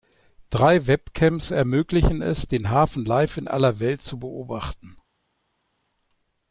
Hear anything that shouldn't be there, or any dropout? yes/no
no